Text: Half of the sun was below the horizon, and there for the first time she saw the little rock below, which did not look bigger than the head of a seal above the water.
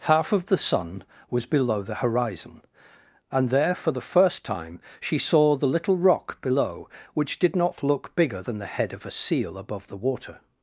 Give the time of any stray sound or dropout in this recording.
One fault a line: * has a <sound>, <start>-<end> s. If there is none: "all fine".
all fine